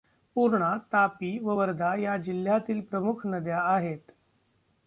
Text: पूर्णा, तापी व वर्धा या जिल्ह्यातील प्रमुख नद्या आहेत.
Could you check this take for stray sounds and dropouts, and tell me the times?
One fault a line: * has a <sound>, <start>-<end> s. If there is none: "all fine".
all fine